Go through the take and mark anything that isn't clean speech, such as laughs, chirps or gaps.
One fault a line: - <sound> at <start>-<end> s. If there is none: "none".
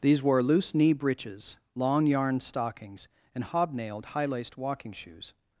none